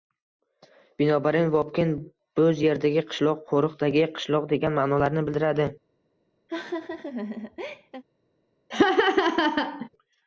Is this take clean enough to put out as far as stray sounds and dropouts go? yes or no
no